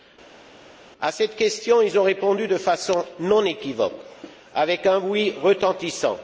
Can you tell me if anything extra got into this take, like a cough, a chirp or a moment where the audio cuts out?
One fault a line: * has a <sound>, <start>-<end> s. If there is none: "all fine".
all fine